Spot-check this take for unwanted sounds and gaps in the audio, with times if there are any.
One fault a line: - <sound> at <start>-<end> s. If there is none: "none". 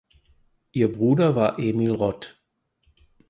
none